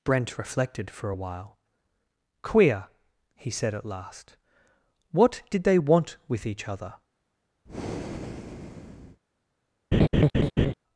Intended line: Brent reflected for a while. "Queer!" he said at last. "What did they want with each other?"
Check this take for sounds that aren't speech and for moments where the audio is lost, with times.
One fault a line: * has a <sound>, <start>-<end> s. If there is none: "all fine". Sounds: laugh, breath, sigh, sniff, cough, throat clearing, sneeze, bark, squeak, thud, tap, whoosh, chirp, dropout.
* has a breath, 7.7-9.2 s
* has a laugh, 9.9-10.7 s